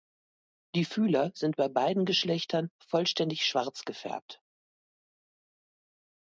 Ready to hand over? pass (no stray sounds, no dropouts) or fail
pass